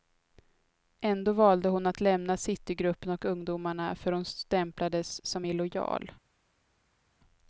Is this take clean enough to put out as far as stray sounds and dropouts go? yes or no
yes